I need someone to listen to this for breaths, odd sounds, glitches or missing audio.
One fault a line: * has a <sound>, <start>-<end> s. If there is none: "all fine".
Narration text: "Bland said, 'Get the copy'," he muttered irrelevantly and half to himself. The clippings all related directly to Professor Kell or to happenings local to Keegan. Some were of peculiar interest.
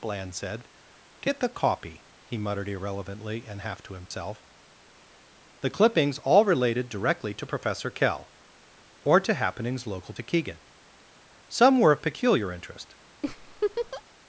* has a dropout, 4.1-4.1 s
* has a laugh, 13.2-14.0 s